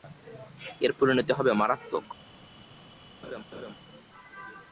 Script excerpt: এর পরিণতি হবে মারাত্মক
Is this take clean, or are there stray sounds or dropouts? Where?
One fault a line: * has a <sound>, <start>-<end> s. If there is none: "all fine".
* has a laugh, 3.2-3.7 s